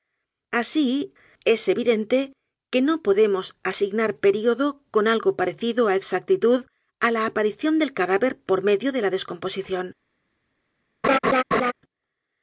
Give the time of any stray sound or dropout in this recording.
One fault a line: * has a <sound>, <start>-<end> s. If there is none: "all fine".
* has a laugh, 11.0-11.7 s